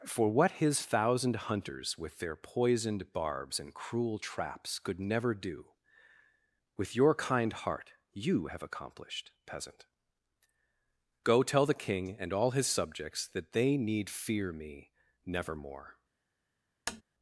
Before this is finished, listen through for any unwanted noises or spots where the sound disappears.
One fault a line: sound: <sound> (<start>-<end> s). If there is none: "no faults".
sound: tap (16.9-17.0 s)